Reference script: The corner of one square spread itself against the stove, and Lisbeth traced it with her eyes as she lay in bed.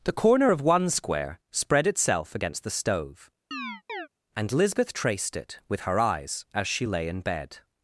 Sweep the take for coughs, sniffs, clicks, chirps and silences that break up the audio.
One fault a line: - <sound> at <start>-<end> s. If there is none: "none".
- chirp at 3.5-4.1 s